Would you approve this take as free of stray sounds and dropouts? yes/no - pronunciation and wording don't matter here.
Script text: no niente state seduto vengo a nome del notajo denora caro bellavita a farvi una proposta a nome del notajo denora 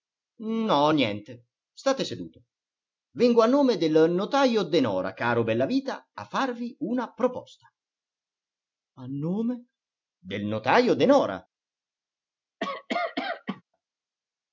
no